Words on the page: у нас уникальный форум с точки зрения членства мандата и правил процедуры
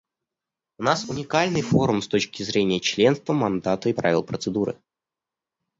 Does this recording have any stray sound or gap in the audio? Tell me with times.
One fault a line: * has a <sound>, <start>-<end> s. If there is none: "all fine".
all fine